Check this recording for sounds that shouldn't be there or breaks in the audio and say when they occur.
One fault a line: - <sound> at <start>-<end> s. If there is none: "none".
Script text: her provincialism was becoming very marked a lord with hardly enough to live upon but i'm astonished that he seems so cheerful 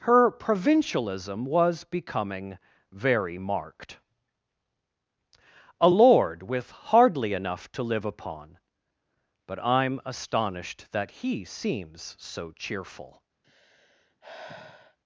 - sigh at 13.4-15.0 s